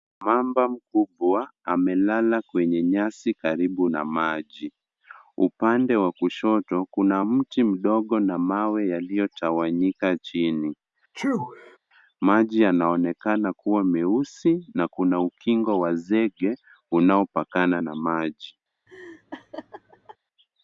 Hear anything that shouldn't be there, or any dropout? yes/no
yes